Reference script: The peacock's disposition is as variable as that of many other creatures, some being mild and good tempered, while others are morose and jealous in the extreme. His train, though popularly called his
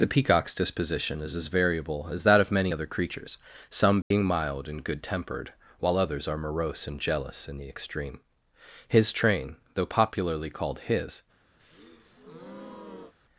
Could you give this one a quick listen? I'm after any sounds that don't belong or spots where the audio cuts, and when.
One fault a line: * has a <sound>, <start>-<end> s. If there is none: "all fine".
* has a dropout, 4.0-4.1 s
* has a breath, 11.6-13.1 s